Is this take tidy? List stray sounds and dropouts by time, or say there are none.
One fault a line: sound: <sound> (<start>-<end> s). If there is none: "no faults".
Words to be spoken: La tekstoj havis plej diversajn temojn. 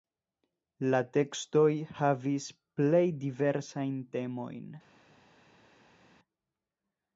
no faults